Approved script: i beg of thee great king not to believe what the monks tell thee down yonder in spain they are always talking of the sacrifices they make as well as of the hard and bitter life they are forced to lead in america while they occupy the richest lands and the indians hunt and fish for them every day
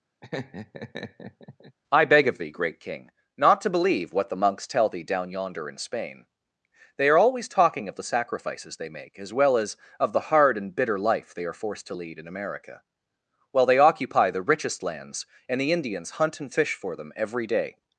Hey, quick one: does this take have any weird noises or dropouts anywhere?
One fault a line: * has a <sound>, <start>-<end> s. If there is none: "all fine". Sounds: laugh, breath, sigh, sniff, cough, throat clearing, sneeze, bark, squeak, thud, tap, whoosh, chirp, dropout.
* has a laugh, 0.2-1.8 s